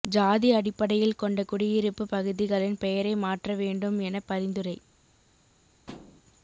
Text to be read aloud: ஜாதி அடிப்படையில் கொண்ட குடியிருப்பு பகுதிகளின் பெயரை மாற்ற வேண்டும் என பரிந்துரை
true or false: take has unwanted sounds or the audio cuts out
true